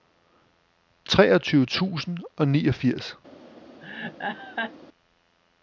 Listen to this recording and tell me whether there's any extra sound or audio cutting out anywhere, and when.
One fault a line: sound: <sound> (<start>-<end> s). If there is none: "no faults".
sound: laugh (3.8-4.7 s)